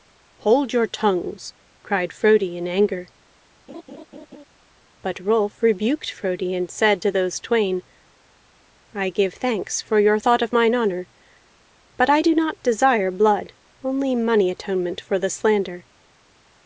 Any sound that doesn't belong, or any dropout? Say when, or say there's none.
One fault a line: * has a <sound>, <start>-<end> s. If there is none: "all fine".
* has a laugh, 3.7-4.4 s